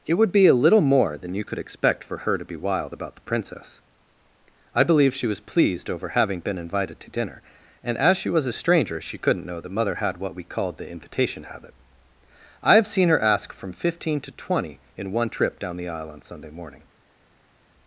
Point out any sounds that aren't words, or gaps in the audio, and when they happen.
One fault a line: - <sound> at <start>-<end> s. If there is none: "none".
none